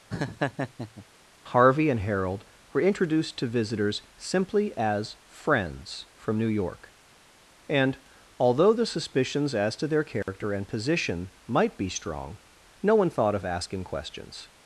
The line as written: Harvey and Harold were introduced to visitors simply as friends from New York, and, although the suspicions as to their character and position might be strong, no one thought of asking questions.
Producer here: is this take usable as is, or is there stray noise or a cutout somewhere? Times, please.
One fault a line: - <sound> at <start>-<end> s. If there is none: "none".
- laugh at 0.1-1.1 s
- dropout at 10.2-10.3 s